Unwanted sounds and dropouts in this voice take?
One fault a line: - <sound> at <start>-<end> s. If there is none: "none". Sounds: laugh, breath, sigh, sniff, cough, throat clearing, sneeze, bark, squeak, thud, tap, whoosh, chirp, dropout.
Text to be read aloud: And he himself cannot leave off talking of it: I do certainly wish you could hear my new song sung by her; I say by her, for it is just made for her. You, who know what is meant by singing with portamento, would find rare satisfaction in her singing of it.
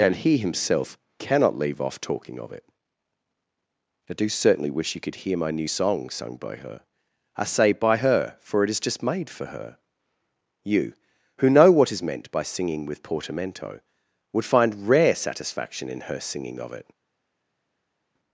none